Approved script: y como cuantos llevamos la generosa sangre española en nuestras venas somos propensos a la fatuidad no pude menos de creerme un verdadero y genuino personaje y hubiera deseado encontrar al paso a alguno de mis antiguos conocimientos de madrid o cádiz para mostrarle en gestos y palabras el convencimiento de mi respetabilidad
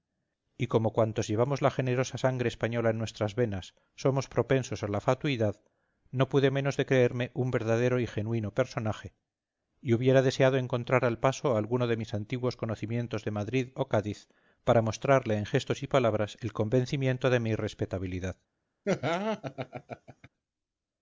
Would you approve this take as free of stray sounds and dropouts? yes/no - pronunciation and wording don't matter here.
no